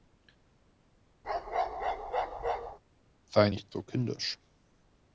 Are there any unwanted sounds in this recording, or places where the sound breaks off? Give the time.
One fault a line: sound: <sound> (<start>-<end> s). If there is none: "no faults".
sound: bark (1.2-2.8 s)